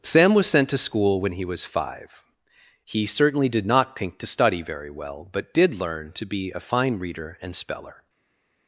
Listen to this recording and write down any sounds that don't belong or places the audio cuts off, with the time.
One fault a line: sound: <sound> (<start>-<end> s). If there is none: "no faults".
no faults